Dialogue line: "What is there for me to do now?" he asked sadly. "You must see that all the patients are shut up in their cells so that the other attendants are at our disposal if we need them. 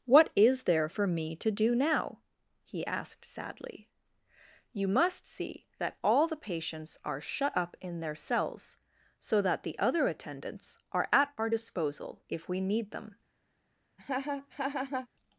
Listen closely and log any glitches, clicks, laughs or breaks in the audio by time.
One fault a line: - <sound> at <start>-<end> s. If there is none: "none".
- laugh at 14.0-15.1 s